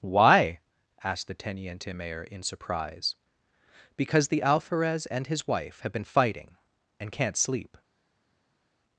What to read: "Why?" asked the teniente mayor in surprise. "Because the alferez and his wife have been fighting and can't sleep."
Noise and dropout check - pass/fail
pass